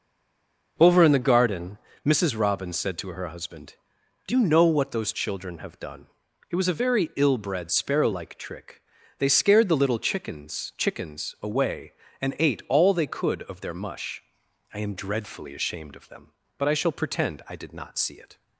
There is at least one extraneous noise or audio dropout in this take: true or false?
false